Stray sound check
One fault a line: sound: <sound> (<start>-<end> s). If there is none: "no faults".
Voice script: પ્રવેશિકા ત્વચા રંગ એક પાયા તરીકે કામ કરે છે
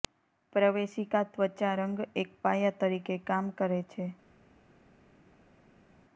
no faults